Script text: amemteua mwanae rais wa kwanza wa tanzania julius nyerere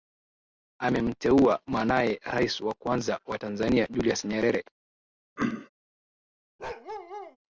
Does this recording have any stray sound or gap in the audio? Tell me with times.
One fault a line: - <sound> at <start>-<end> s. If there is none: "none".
- throat clearing at 5.4-5.7 s
- bark at 6.6-7.4 s